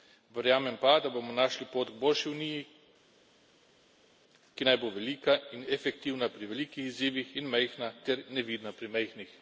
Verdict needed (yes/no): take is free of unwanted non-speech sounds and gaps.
yes